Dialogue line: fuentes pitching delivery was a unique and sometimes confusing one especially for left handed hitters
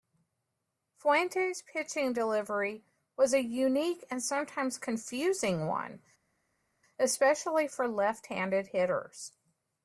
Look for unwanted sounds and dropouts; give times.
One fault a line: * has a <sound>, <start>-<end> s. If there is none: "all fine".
all fine